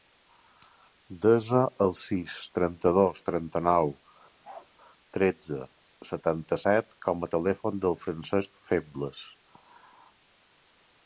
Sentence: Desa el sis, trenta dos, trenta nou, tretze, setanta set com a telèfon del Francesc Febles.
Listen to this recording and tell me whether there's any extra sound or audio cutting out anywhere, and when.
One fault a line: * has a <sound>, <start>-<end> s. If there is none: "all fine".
* has a bark, 4.4-4.7 s